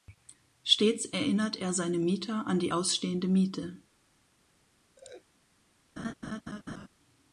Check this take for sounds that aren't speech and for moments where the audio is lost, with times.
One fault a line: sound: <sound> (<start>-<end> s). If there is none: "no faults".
sound: laugh (5.0-5.3 s)
sound: laugh (6.0-6.9 s)